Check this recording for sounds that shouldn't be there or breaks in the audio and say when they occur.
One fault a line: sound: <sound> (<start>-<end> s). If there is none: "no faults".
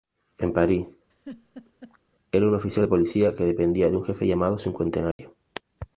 sound: laugh (1.1-2.0 s)
sound: dropout (5.1-5.2 s)